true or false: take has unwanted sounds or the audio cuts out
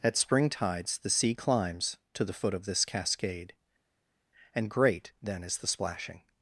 false